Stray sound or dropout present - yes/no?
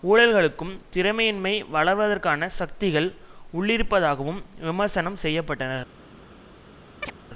yes